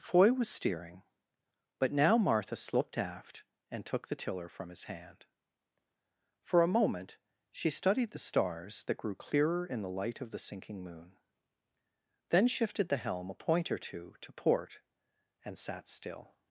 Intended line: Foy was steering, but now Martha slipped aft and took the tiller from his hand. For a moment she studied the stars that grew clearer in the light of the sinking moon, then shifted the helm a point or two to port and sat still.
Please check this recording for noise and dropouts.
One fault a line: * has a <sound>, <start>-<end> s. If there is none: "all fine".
all fine